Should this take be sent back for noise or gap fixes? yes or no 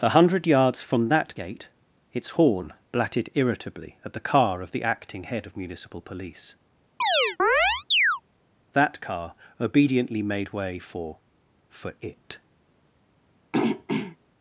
yes